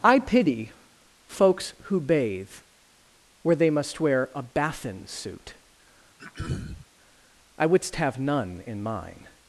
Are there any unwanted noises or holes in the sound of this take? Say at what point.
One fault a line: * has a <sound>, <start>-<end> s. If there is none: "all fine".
* has a throat clearing, 6.2-6.9 s